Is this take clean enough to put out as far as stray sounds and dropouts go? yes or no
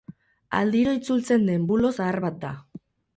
yes